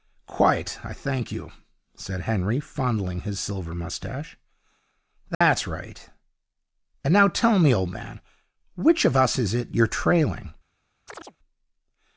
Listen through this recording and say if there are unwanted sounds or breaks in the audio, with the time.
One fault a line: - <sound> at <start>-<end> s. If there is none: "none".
- dropout at 5.3-5.4 s
- chirp at 11.1-11.4 s